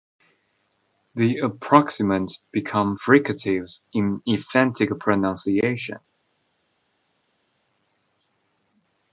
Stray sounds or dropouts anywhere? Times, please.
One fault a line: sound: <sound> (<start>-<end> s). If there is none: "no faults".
no faults